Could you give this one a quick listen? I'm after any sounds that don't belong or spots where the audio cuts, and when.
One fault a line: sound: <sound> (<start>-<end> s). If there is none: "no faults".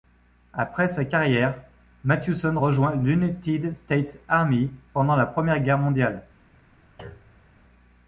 sound: thud (7.0-7.5 s)